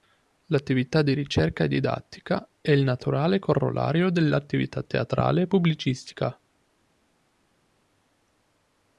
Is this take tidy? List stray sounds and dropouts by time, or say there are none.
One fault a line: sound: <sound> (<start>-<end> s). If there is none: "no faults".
no faults